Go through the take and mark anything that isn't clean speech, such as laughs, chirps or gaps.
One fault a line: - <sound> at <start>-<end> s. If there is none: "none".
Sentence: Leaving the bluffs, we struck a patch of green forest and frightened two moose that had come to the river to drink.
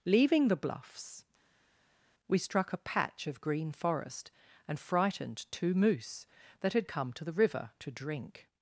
none